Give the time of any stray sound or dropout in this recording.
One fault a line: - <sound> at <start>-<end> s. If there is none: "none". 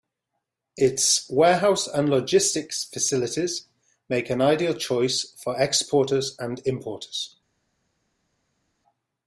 none